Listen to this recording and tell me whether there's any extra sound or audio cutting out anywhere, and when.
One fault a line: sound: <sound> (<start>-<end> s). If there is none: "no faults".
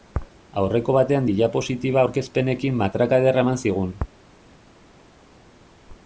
no faults